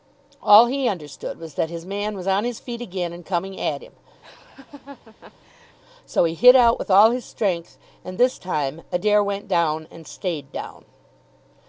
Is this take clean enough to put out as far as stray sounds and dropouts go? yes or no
no